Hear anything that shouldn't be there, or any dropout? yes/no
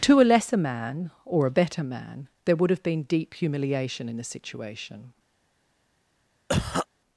yes